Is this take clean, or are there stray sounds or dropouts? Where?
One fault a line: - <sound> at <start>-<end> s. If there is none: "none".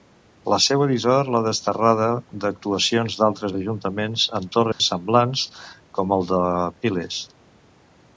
- dropout at 4.7-4.8 s